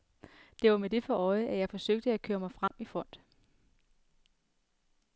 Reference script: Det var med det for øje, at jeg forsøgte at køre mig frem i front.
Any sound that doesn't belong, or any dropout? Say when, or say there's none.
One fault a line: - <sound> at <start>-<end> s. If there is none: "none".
- dropout at 2.7-2.7 s